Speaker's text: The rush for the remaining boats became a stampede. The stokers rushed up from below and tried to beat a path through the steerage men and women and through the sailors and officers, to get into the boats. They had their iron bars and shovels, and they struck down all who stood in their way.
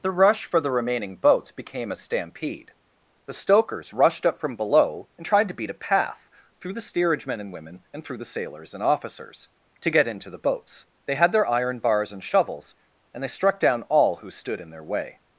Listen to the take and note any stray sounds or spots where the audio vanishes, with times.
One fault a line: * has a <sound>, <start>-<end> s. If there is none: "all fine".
all fine